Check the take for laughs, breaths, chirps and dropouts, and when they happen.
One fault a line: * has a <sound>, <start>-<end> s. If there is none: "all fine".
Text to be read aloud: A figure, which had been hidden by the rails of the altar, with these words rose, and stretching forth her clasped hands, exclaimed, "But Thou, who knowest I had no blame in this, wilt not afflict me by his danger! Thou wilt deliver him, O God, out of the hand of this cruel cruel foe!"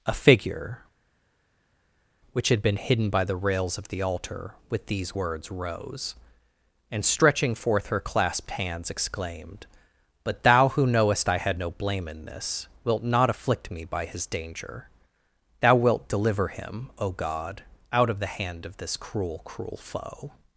all fine